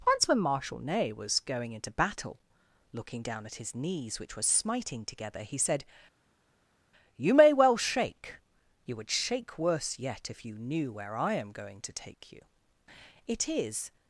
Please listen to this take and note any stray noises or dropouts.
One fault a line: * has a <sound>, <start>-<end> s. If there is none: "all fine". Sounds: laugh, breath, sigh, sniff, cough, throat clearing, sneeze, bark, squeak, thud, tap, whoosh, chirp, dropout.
all fine